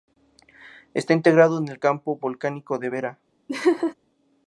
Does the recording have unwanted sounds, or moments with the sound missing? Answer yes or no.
yes